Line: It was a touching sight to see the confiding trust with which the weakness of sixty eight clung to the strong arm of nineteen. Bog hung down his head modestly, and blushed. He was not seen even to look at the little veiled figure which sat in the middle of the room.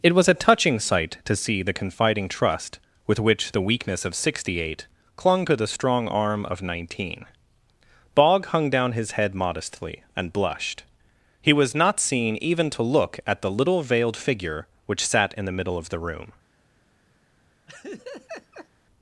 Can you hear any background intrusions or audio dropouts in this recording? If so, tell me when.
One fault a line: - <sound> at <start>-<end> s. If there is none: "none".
- laugh at 17.7-18.7 s